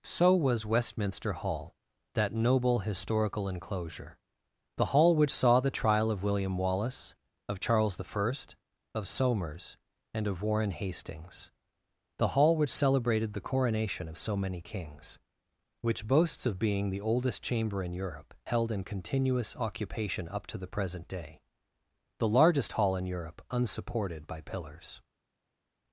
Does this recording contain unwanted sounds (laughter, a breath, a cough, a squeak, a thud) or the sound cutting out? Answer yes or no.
no